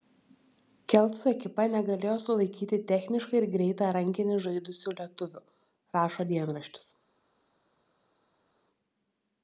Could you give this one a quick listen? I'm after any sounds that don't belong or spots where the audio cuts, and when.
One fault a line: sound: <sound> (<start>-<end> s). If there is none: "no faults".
no faults